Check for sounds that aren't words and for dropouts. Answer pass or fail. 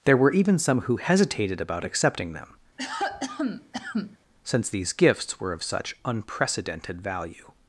fail